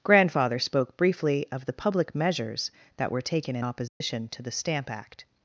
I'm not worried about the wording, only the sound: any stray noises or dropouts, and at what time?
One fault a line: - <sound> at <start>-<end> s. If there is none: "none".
- dropout at 3.9-4.0 s